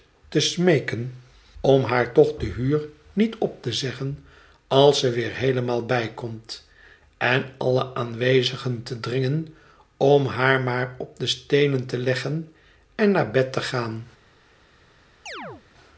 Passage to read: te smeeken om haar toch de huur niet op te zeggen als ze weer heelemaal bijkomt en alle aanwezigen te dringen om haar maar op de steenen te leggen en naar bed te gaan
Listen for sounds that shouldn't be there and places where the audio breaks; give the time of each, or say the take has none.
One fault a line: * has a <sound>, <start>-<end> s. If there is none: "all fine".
* has a chirp, 15.3-15.6 s